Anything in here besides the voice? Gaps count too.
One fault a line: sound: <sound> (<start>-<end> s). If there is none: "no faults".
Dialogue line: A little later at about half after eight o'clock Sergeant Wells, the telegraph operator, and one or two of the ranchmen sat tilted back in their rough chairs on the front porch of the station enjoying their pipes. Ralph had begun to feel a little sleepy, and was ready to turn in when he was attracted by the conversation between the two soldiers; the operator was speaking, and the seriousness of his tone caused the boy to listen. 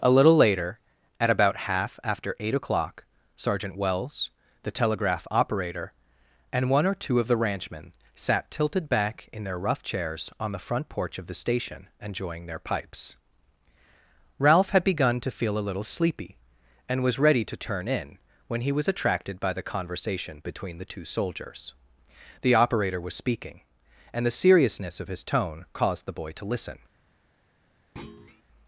sound: thud (28.0-28.4 s)